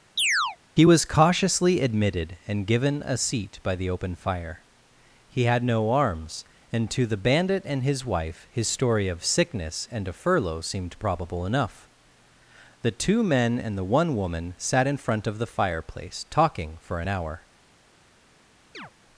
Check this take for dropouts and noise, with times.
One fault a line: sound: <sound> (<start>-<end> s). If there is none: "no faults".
sound: chirp (0.2-0.6 s)
sound: chirp (18.7-18.9 s)